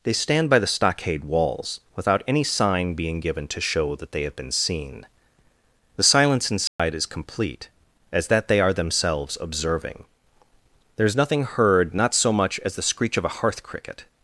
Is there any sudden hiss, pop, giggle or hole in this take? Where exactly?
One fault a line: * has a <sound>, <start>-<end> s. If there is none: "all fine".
* has a dropout, 6.7-6.8 s